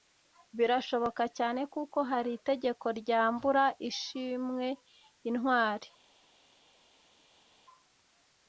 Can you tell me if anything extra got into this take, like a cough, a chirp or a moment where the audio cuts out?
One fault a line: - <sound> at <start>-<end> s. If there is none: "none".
none